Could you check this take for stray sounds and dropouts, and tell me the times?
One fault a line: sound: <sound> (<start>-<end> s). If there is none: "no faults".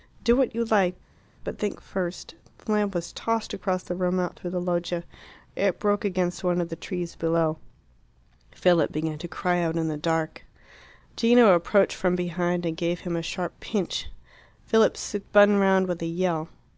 no faults